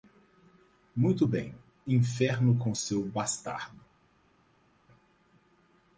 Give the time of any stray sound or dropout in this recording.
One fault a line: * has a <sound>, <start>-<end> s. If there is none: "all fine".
all fine